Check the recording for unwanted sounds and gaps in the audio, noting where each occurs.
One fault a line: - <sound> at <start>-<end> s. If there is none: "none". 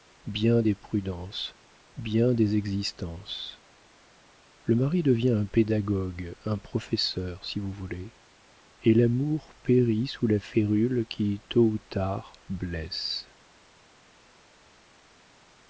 none